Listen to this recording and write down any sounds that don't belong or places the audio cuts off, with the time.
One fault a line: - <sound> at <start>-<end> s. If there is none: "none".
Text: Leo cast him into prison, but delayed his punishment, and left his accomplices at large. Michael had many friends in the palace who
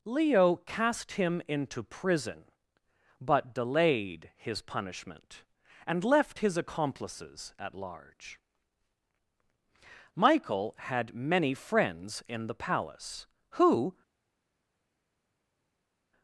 none